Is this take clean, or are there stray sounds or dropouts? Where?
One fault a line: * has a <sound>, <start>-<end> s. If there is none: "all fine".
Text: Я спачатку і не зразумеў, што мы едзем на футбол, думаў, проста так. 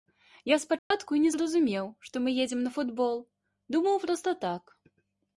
* has a dropout, 0.8-0.9 s